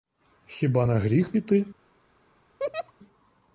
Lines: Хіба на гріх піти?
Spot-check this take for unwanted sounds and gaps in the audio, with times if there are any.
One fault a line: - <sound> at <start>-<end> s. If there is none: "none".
- laugh at 2.6-2.9 s